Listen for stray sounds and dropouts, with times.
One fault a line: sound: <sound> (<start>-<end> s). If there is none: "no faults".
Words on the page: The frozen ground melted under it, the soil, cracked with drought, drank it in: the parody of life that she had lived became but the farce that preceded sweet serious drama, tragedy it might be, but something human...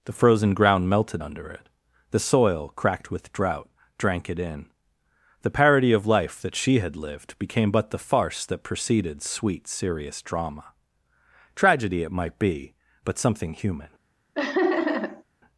sound: laugh (14.3-15.2 s)